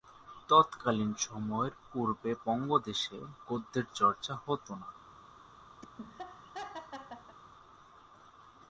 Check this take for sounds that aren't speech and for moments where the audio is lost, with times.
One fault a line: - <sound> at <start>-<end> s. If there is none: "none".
- laugh at 5.8-7.4 s